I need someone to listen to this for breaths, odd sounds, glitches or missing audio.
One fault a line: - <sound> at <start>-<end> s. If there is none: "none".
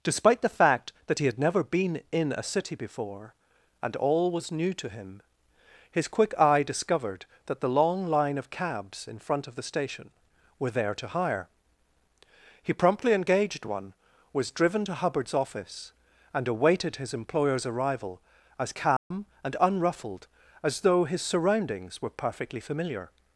- dropout at 19.0-19.1 s